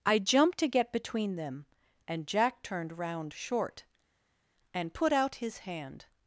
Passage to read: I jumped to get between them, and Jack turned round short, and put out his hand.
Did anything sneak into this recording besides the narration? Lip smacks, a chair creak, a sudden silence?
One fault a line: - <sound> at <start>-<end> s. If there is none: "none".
none